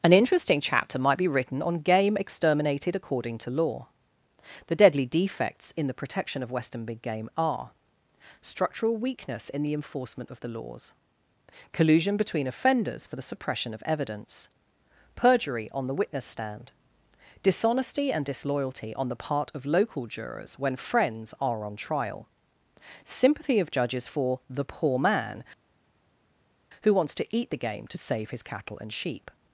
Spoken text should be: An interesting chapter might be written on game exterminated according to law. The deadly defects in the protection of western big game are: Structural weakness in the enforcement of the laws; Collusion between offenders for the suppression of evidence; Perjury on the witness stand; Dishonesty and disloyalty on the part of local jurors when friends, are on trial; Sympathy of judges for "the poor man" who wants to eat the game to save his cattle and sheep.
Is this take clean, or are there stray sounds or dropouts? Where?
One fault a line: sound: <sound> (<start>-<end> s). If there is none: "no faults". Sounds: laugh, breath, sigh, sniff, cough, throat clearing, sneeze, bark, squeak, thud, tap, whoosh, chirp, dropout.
no faults